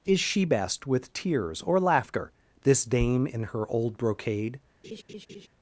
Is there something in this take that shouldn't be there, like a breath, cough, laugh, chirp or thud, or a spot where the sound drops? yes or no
yes